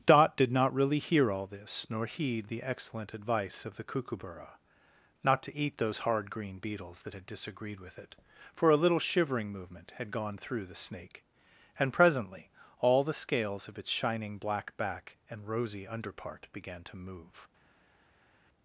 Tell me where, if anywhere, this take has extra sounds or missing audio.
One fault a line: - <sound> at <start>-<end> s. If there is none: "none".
none